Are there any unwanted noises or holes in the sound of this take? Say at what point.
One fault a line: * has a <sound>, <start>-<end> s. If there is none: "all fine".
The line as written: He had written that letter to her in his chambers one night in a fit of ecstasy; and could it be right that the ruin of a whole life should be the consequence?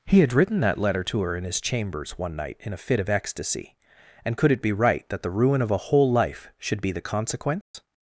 * has a dropout, 7.6-7.7 s